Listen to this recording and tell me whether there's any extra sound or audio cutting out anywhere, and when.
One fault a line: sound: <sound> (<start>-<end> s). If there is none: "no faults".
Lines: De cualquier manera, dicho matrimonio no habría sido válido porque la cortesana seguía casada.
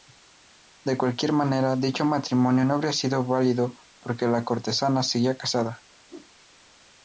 sound: whoosh (6.1-6.3 s)